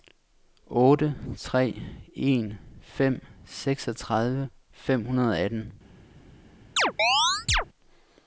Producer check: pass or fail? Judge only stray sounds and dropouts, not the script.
fail